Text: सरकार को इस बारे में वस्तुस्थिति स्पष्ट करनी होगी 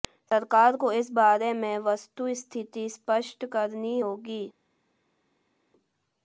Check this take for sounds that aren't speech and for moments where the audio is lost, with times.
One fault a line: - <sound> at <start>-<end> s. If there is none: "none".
none